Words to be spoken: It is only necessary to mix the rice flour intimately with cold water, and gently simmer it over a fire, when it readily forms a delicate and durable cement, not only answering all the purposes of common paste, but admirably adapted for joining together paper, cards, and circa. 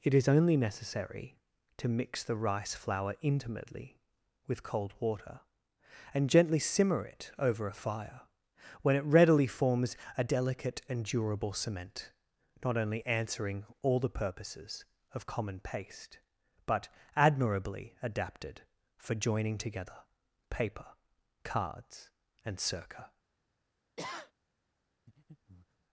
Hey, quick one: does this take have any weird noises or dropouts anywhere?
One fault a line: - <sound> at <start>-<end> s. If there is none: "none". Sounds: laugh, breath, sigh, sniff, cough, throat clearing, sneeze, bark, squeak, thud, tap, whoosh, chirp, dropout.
- sniff at 24.0-24.3 s
- breath at 25.1-25.8 s